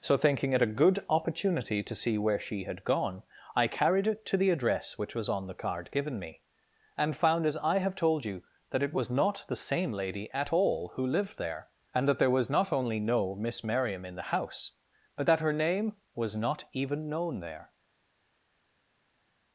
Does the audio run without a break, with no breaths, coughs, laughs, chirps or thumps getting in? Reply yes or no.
yes